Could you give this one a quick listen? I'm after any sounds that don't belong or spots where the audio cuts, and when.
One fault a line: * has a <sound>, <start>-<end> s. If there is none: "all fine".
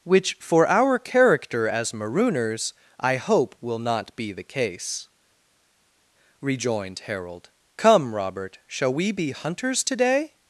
all fine